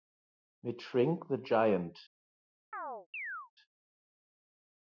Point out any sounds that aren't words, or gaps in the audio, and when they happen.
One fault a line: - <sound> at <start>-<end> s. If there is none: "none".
- chirp at 2.7-3.5 s